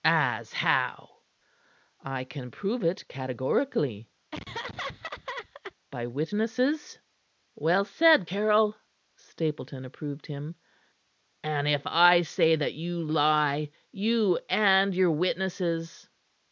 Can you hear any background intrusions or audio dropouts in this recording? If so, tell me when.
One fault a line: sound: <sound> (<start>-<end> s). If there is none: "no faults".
sound: laugh (4.3-5.7 s)